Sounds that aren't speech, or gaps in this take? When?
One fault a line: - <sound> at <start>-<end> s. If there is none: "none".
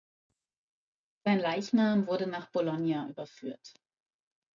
none